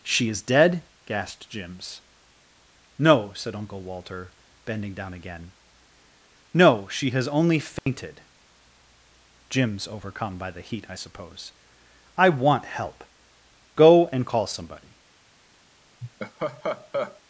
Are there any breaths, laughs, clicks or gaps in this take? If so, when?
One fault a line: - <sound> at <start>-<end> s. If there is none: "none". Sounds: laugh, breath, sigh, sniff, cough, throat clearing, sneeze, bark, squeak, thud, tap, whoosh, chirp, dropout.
- dropout at 7.8-7.9 s
- laugh at 16.0-17.2 s